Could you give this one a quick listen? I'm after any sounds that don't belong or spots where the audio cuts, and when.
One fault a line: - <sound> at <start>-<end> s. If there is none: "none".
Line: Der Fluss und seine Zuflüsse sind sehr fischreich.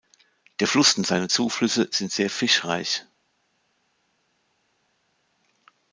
none